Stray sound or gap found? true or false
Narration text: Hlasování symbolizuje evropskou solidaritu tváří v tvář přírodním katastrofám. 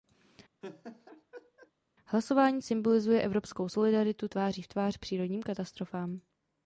true